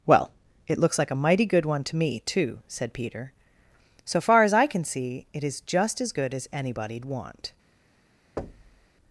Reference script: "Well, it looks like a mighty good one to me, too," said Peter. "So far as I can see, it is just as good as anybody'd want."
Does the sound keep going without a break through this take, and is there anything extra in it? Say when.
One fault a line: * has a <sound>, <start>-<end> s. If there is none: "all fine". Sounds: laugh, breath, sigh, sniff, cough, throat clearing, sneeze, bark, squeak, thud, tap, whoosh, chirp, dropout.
* has a thud, 8.4-8.9 s